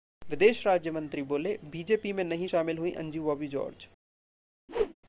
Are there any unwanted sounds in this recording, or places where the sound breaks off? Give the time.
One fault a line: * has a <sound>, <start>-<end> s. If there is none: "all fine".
* has a whoosh, 4.7-4.9 s